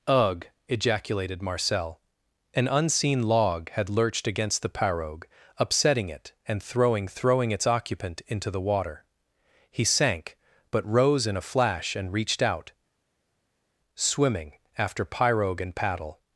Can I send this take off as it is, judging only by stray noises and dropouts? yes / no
yes